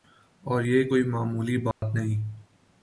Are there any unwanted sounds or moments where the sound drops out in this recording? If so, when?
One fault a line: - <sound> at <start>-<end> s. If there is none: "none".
- dropout at 1.7-1.8 s